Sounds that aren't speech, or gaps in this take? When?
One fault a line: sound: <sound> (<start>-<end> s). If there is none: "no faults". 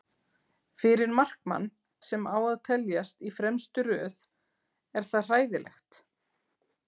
no faults